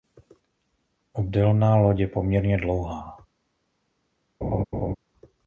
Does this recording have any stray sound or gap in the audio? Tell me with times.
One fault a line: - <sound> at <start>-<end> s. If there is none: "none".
- laugh at 4.4-4.9 s